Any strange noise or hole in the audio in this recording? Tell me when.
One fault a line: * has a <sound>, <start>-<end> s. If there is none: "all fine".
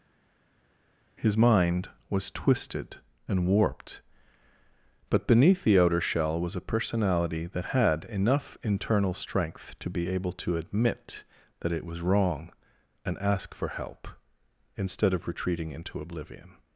all fine